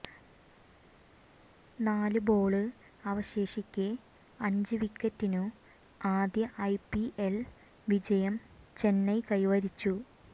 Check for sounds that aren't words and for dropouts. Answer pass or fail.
pass